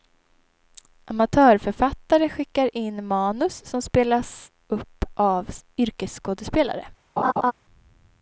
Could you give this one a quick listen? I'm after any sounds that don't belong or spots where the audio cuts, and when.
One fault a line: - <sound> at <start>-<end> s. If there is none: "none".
- laugh at 7.2-7.5 s